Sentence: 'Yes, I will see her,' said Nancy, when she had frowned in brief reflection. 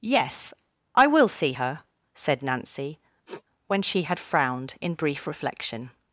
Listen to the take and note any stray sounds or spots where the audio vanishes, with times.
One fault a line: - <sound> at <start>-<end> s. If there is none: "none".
- sniff at 3.3-3.4 s